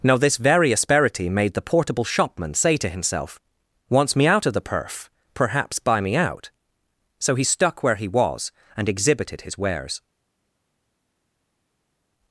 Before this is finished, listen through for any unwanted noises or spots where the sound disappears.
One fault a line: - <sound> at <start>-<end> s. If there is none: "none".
none